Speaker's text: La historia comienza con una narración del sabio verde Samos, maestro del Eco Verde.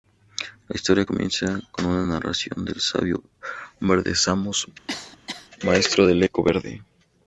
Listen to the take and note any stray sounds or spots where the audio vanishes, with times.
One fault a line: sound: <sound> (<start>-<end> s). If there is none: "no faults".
sound: cough (4.9-5.5 s)